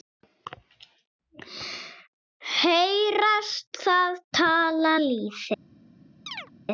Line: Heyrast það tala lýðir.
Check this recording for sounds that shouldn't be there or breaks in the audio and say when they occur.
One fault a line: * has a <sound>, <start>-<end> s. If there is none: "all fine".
* has a chirp, 6.3-6.5 s